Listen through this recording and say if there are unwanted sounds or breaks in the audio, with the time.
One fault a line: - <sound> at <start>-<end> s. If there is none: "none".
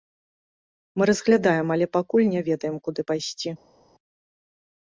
none